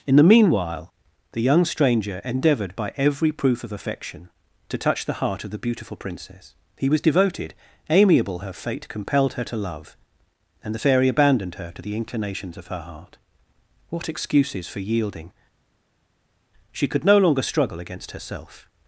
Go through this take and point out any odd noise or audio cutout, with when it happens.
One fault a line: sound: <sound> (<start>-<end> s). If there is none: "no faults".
no faults